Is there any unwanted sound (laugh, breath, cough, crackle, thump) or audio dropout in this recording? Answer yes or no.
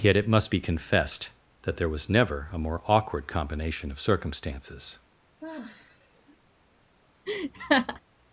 yes